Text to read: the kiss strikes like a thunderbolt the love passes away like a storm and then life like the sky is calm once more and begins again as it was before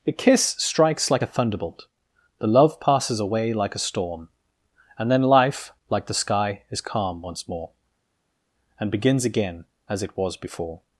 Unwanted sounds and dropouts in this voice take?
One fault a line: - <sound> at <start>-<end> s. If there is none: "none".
none